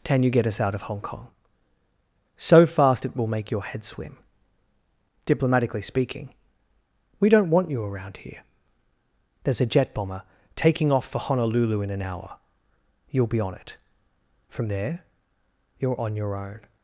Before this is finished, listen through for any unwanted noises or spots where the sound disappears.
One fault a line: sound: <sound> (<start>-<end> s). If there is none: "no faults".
no faults